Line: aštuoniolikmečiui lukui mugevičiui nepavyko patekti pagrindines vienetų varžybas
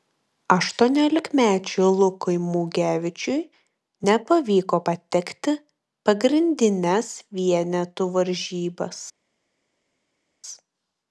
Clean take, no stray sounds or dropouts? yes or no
yes